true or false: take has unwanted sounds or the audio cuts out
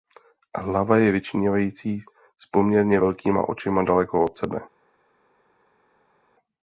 false